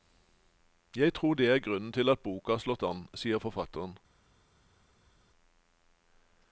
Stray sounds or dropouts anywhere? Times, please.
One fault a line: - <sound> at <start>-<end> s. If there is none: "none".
none